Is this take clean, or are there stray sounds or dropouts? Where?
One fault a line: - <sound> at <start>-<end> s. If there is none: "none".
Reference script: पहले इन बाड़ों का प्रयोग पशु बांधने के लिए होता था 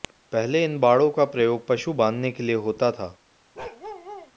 - bark at 3.5-4.3 s